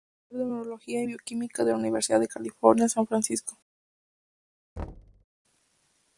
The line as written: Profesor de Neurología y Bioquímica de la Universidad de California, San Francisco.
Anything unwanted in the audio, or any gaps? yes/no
yes